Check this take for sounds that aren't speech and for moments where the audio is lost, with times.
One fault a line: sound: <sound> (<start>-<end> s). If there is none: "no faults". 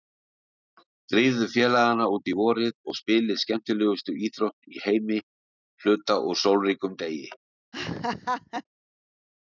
sound: laugh (7.7-8.6 s)